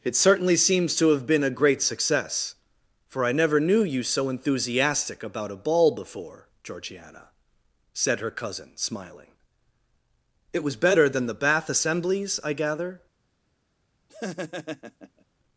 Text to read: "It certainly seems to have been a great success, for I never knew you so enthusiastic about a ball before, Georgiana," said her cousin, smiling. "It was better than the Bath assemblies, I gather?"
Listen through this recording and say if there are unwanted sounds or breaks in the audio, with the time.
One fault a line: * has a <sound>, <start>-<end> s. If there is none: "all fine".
* has a laugh, 14.1-15.2 s